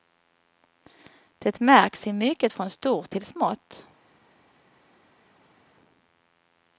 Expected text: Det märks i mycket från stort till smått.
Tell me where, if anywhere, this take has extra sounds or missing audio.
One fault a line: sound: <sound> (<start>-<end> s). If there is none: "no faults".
no faults